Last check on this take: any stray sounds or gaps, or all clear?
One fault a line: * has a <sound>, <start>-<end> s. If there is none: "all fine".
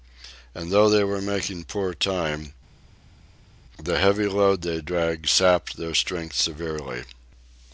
all fine